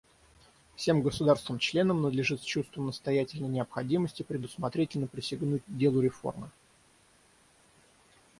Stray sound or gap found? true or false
false